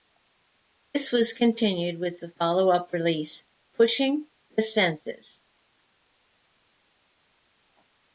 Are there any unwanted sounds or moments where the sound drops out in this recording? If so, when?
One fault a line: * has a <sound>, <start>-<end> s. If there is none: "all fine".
all fine